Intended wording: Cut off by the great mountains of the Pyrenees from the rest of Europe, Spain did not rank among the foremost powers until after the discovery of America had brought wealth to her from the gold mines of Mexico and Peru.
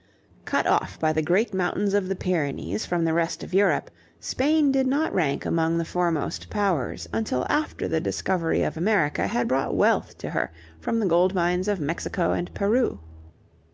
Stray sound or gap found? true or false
false